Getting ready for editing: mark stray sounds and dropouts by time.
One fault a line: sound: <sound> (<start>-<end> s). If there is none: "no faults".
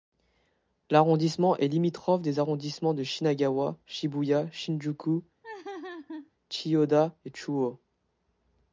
sound: laugh (5.4-6.3 s)